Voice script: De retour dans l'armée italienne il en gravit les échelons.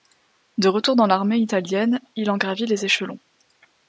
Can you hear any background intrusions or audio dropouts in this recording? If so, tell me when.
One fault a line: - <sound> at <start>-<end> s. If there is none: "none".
none